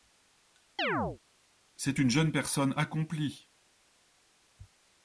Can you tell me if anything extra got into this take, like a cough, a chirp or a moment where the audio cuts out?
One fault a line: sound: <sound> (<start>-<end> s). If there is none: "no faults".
sound: chirp (0.8-1.2 s)